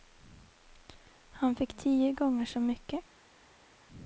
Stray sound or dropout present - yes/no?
no